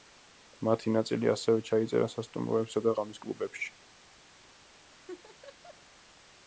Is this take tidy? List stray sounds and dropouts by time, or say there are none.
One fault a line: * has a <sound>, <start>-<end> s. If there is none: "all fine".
* has a laugh, 4.9-5.8 s